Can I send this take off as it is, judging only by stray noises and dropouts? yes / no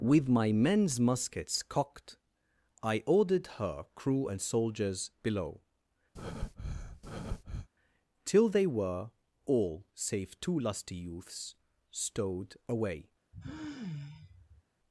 no